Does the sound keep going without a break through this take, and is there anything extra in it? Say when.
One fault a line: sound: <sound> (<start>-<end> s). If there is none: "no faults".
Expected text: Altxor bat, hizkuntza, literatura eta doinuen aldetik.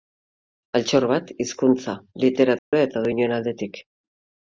sound: dropout (2.6-2.7 s)